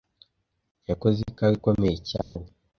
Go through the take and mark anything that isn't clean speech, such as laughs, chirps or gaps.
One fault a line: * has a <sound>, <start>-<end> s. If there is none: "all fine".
* has a dropout, 2.2-2.4 s